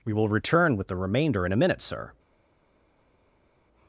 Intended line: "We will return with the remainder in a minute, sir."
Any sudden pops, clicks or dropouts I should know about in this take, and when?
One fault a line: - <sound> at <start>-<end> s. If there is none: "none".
none